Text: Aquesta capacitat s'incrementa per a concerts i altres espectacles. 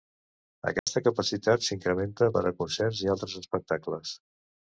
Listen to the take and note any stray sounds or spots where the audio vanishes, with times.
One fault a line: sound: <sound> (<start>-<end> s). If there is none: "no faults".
sound: dropout (0.8-0.9 s)